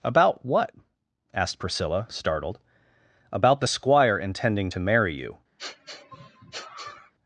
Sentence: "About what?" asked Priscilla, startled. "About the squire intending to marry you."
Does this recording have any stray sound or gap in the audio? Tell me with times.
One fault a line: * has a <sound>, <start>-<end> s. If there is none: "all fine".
* has a sniff, 5.6-7.1 s